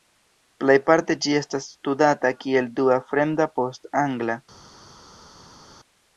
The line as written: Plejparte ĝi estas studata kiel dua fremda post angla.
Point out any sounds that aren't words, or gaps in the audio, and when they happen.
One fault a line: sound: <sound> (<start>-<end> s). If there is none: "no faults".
no faults